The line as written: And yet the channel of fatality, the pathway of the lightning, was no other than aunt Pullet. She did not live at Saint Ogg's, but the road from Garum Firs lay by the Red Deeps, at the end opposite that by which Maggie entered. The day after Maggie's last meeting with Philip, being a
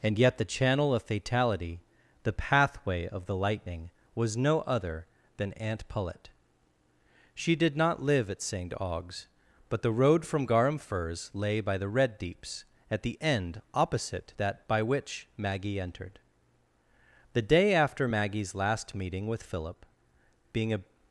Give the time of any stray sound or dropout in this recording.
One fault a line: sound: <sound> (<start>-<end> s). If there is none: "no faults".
no faults